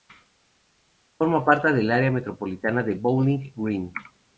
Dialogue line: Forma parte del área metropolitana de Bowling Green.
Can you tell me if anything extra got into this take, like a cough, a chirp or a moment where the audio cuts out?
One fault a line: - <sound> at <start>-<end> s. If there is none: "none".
none